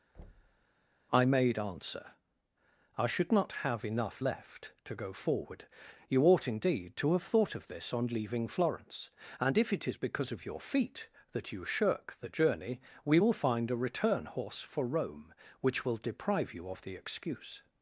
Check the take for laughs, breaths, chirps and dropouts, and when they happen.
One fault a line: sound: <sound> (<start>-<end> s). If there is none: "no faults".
sound: thud (0.1-0.7 s)